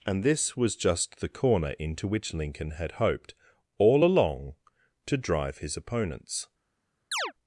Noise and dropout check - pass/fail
fail